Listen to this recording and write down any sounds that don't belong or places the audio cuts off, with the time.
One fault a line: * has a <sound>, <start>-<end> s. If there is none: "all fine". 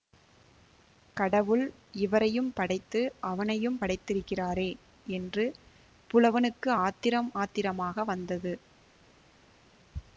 all fine